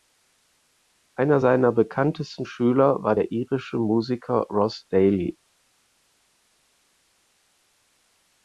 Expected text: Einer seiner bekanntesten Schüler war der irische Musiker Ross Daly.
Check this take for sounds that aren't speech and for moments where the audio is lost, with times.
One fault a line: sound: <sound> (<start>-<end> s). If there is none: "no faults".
no faults